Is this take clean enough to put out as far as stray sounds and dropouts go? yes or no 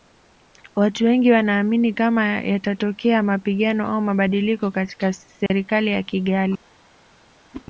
no